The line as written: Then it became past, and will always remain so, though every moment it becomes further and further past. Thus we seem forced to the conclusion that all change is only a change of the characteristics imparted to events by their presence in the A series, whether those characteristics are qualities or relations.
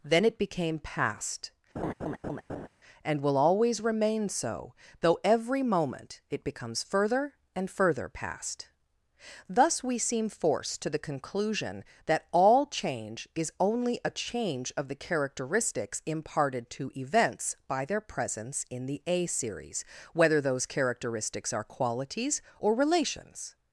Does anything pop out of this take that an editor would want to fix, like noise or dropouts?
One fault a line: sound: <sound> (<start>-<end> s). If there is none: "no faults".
sound: laugh (1.8-2.7 s)